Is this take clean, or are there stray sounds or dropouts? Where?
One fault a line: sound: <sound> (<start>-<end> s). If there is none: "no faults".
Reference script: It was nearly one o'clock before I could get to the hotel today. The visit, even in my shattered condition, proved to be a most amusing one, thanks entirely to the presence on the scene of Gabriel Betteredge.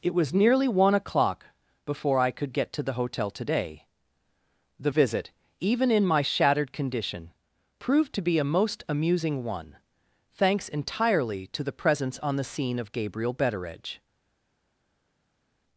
no faults